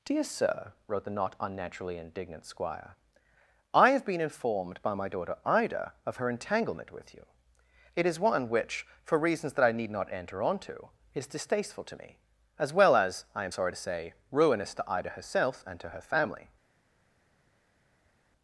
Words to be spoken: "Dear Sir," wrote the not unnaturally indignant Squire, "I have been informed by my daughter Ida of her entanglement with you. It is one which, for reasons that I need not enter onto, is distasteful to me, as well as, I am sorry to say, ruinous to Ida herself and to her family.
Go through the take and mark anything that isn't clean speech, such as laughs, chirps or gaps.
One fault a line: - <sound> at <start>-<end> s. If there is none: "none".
none